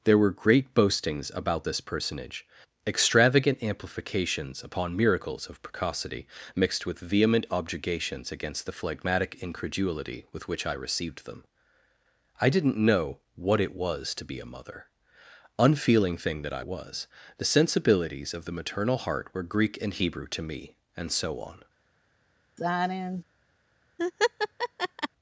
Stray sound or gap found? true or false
true